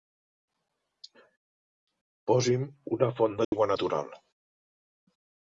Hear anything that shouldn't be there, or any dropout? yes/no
yes